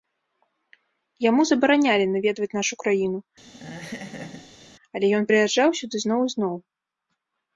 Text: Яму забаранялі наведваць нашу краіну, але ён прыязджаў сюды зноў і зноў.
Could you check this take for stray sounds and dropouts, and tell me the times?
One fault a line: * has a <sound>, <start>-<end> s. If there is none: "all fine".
* has a laugh, 3.4-4.7 s